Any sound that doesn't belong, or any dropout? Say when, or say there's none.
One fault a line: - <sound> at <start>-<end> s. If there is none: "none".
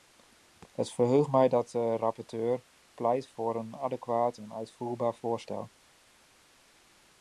none